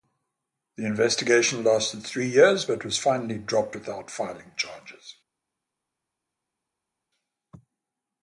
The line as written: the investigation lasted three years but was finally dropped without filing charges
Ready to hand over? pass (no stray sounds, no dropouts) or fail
pass